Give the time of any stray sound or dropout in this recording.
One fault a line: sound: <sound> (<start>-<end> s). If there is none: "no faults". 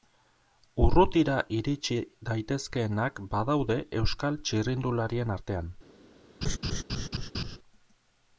sound: laugh (6.4-7.6 s)